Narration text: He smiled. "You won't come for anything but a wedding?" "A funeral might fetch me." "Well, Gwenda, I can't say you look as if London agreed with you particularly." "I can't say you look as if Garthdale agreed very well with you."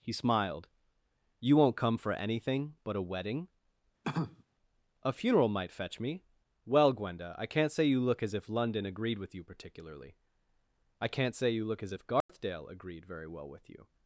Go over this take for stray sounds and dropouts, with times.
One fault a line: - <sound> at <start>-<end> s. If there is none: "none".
- cough at 4.0-4.4 s
- dropout at 12.2-12.3 s